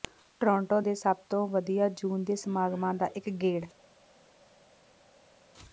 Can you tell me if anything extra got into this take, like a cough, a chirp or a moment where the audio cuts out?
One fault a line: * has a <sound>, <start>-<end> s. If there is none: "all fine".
all fine